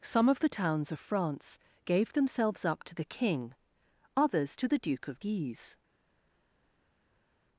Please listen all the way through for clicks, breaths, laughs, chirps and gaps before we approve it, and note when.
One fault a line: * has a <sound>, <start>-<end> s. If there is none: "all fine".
all fine